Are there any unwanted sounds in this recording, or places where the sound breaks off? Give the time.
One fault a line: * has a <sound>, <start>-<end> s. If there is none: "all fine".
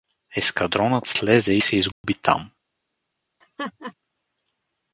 * has a dropout, 1.9-2.0 s
* has a laugh, 3.4-3.9 s